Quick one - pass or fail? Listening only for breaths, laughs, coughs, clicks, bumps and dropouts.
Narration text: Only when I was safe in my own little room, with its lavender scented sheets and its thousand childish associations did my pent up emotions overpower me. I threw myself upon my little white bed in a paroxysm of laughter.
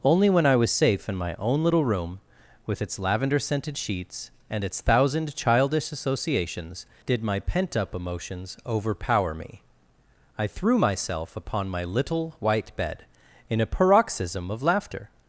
pass